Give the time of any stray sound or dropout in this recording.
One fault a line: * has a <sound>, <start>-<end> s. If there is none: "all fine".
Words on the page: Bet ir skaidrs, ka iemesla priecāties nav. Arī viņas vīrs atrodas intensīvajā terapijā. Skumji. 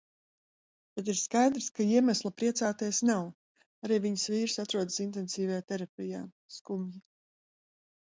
all fine